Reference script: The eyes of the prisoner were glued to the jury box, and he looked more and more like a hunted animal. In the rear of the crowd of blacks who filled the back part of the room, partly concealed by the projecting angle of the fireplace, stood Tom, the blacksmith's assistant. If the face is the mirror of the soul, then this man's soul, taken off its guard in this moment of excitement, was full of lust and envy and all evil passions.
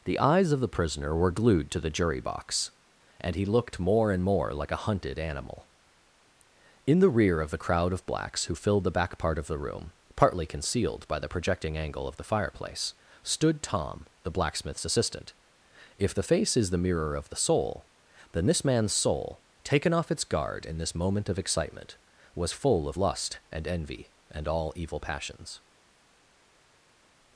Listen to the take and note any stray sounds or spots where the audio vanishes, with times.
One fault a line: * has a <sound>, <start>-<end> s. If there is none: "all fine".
all fine